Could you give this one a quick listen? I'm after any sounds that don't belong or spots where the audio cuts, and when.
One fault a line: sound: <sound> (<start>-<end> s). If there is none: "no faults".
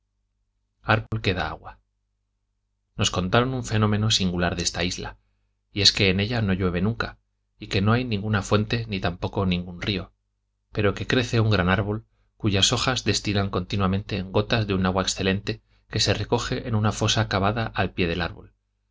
sound: dropout (1.1-1.1 s)